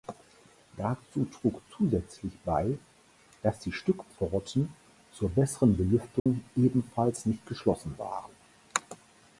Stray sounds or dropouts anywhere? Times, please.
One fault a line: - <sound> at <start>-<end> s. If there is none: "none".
- dropout at 6.2-6.3 s